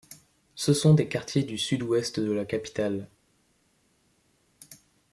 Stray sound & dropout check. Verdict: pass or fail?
pass